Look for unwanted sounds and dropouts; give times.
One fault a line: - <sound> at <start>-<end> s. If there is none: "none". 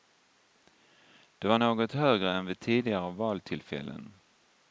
none